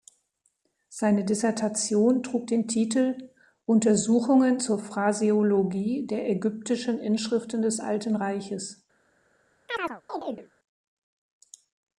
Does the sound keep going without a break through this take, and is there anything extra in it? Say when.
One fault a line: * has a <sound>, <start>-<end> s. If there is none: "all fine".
* has a chirp, 9.7-10.5 s